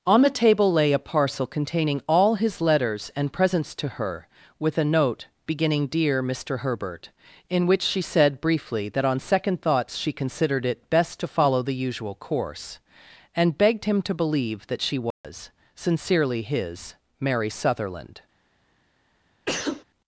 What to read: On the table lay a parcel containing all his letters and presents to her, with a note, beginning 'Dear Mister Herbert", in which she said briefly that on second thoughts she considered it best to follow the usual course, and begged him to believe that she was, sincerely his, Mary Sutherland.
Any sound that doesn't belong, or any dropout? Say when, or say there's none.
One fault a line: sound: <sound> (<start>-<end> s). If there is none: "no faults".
sound: dropout (15.1-15.2 s)
sound: sneeze (19.5-19.8 s)